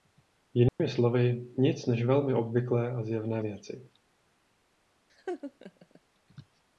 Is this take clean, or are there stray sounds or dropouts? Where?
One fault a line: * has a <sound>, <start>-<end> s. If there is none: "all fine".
* has a dropout, 0.7-0.8 s
* has a laugh, 5.1-6.0 s